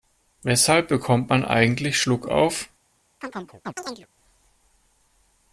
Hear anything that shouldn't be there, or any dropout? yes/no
yes